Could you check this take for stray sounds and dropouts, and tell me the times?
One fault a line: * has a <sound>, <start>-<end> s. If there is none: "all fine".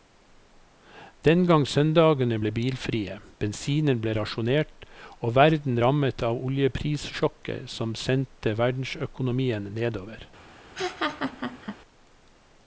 * has a laugh, 10.7-11.8 s